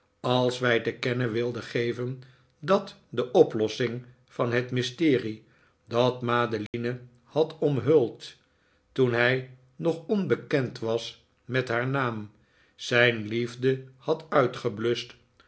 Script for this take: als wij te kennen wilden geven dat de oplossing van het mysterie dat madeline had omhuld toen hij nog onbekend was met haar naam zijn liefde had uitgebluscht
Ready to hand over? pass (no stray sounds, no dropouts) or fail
fail